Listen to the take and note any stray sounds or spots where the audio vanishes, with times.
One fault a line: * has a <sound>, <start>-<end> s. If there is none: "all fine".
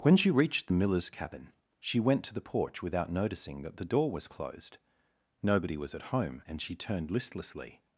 all fine